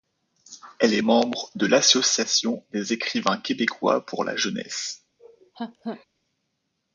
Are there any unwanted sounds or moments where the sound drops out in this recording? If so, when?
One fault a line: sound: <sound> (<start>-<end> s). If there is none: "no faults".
sound: laugh (5.2-6.1 s)